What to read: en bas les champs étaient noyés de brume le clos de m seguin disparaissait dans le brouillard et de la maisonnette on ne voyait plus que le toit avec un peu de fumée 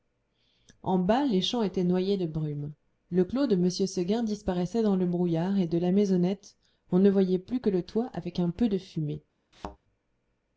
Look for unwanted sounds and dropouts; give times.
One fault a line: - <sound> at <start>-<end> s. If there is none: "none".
- thud at 9.5-9.8 s